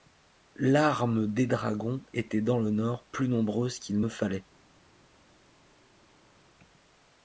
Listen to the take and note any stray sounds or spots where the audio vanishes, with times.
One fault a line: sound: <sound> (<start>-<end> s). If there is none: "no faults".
no faults